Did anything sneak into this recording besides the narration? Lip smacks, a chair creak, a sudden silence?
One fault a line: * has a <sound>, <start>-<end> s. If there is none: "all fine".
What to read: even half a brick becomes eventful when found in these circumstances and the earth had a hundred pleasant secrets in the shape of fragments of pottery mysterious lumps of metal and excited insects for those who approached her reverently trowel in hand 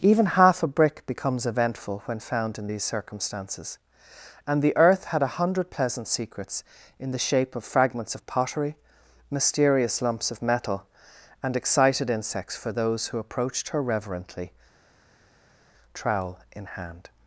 all fine